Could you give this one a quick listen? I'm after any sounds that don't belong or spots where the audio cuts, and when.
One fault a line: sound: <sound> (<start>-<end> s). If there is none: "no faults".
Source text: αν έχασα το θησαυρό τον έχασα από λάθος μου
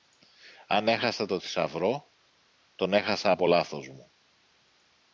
no faults